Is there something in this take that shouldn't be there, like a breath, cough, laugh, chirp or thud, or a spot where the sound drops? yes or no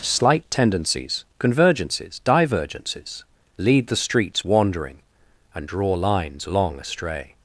no